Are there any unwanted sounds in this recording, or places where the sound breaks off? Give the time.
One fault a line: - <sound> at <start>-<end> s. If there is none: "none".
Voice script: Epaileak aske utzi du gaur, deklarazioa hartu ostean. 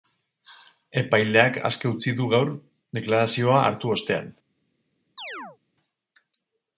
- chirp at 5.2-5.6 s